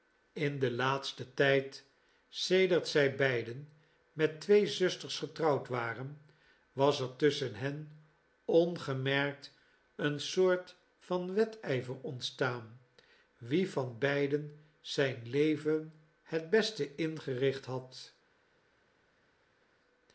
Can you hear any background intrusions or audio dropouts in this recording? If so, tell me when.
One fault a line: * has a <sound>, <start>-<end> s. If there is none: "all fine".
all fine